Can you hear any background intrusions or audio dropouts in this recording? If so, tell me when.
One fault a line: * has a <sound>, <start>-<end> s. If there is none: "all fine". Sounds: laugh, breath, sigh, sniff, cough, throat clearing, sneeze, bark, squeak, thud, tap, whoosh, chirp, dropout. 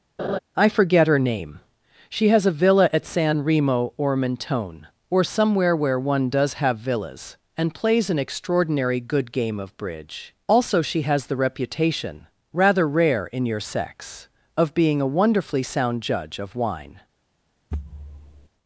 * has a laugh, 0.2-0.4 s
* has a thud, 17.7-18.5 s